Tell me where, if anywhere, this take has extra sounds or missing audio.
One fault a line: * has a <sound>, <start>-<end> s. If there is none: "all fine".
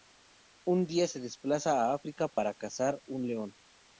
* has a dropout, 2.3-2.4 s